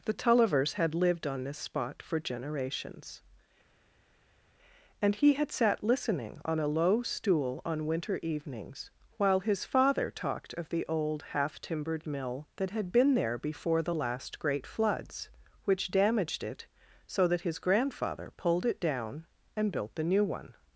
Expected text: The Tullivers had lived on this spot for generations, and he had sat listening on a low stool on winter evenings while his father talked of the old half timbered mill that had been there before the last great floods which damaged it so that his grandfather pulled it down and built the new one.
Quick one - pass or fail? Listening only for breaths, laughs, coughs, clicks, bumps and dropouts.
pass